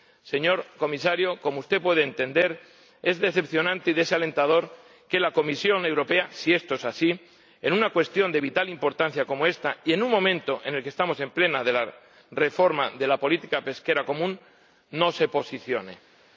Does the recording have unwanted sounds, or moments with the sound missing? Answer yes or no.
no